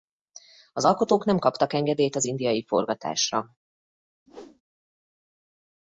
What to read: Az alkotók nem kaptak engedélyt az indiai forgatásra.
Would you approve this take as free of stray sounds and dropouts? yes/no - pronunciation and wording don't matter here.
no